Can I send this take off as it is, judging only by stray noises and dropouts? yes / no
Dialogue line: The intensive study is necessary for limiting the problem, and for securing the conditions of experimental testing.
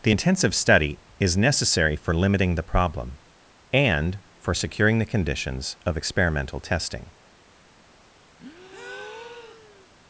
no